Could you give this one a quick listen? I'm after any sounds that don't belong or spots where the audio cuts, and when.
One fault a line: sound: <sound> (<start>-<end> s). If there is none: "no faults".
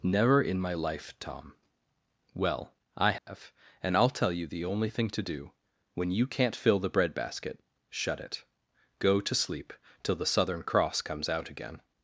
sound: dropout (3.2-3.3 s)